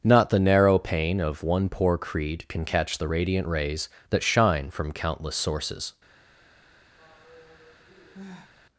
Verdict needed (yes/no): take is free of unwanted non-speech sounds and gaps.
no